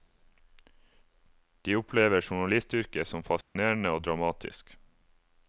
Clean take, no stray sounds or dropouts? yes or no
no